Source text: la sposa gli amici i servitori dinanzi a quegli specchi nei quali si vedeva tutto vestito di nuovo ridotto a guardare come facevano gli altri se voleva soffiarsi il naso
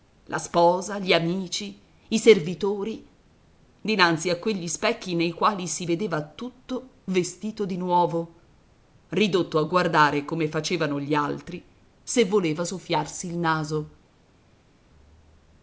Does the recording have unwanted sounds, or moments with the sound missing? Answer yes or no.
no